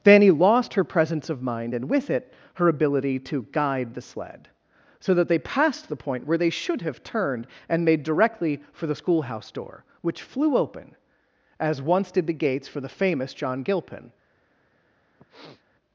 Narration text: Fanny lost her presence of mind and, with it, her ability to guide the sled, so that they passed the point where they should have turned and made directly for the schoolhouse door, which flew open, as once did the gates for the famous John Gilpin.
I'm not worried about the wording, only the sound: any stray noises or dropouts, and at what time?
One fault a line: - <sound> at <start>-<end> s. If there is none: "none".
- sniff at 15.2-15.6 s